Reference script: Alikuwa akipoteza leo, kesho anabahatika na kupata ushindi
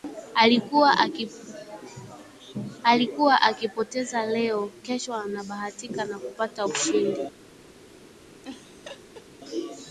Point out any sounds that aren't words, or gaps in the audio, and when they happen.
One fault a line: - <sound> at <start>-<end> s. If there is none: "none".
- laugh at 8.4-9.3 s